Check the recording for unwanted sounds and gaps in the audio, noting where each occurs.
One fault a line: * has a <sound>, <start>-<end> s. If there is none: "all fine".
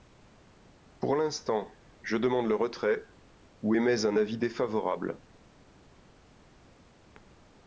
all fine